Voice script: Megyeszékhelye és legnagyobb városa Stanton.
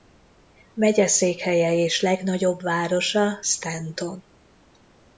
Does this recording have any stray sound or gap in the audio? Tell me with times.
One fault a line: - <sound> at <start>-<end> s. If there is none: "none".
none